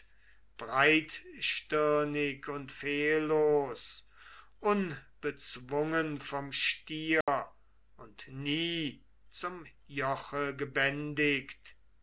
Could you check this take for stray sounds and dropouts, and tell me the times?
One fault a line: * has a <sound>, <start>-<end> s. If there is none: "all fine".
* has a dropout, 7.2-7.3 s